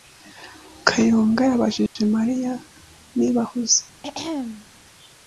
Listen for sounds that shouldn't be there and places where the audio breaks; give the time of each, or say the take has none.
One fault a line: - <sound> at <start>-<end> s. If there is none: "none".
- dropout at 1.9-2.0 s
- throat clearing at 4.0-4.7 s